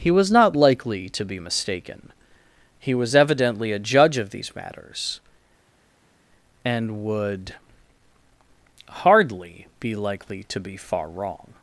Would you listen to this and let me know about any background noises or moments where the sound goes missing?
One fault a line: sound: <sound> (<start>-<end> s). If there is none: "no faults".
no faults